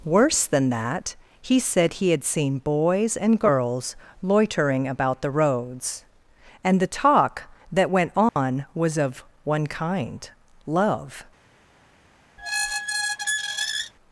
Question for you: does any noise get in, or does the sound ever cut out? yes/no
yes